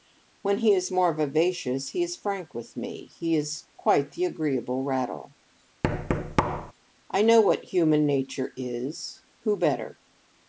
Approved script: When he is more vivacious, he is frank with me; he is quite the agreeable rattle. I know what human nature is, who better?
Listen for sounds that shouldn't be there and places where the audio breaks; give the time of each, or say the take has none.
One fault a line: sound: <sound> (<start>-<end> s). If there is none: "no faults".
sound: thud (5.8-6.7 s)